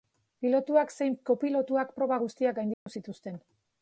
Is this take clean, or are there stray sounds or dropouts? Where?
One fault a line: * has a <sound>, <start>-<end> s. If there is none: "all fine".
* has a dropout, 2.7-2.9 s